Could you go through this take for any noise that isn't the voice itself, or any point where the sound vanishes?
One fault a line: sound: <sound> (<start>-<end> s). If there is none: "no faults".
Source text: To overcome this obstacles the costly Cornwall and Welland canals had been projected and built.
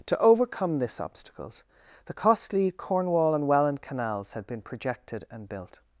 no faults